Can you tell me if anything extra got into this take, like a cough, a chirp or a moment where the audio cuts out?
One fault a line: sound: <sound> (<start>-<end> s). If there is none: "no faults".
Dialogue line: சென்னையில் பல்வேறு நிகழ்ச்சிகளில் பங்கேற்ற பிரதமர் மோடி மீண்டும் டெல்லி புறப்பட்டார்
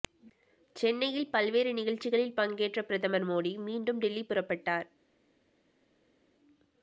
no faults